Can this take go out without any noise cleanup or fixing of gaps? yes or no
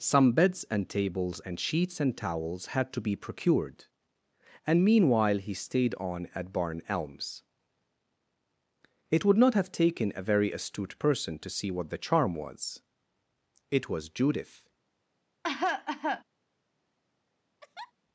no